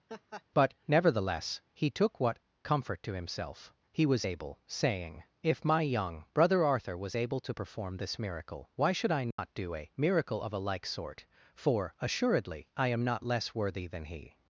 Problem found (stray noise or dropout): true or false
true